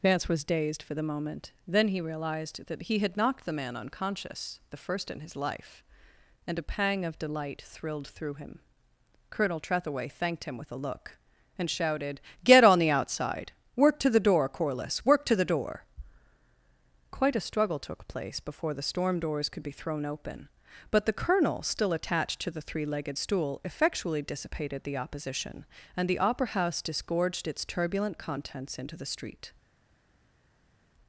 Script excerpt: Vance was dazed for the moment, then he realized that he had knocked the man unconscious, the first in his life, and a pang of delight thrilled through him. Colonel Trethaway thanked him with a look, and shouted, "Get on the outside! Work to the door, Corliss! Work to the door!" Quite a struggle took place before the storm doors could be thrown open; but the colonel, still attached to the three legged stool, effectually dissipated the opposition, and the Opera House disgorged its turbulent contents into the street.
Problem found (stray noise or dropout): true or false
false